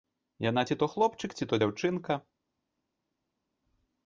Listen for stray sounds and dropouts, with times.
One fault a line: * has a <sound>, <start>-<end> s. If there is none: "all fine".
all fine